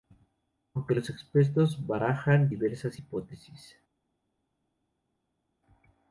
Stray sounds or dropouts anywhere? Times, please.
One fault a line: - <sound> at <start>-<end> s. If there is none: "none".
none